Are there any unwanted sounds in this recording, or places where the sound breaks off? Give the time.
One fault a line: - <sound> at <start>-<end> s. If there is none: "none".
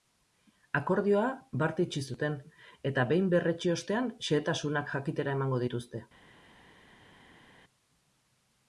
none